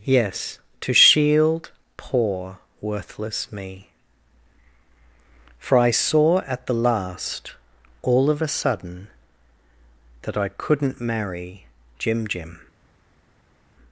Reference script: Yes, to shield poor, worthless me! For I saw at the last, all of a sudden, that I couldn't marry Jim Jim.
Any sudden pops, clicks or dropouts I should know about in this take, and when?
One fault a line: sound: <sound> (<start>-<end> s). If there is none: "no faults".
no faults